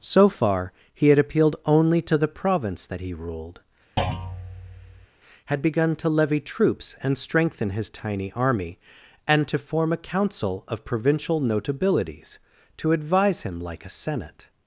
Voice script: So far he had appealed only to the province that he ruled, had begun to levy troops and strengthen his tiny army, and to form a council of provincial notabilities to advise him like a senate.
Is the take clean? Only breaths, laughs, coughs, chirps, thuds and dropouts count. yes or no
no